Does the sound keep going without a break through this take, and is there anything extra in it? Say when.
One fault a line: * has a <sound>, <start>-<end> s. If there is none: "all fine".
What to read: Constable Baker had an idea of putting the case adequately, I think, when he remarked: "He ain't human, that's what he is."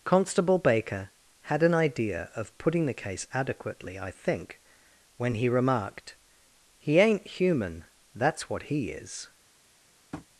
* has a tap, 10.1-10.3 s